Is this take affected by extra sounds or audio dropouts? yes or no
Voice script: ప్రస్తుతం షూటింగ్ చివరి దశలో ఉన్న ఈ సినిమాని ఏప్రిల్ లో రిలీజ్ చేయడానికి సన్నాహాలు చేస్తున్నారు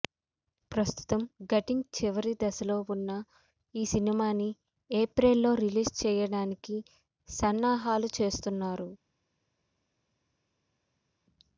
no